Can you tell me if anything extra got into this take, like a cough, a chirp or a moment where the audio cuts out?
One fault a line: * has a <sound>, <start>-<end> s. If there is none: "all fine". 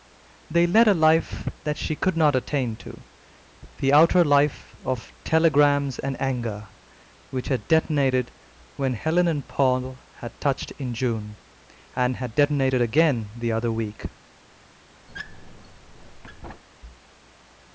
* has a squeak, 15.1-16.6 s